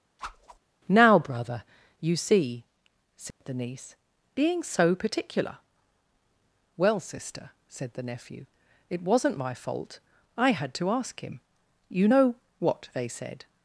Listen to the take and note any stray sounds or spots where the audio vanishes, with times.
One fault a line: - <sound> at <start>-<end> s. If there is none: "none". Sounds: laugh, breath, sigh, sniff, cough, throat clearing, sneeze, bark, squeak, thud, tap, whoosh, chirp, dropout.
- whoosh at 0.2-0.6 s
- dropout at 3.3-3.4 s